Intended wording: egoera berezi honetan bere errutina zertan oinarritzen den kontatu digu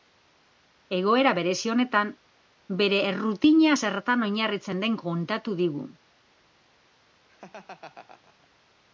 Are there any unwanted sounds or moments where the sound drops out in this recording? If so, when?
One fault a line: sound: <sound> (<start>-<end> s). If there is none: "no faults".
sound: laugh (7.3-8.5 s)